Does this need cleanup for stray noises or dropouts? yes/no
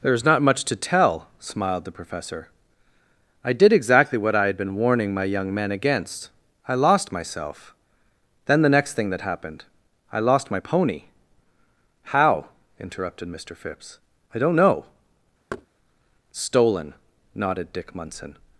yes